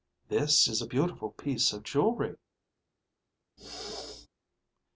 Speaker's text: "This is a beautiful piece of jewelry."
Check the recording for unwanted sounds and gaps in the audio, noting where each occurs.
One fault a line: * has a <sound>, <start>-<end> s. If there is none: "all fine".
* has a throat clearing, 3.6-4.3 s